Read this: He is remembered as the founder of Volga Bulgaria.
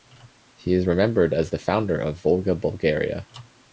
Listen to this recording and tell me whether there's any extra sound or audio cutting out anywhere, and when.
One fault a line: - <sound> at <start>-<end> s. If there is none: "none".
none